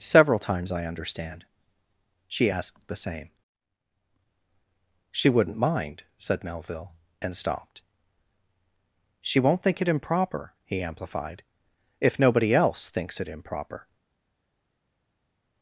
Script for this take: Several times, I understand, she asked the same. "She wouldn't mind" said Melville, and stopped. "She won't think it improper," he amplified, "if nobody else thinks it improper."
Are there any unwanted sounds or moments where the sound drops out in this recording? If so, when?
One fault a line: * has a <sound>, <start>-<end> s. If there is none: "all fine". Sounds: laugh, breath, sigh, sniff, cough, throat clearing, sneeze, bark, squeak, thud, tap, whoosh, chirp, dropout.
all fine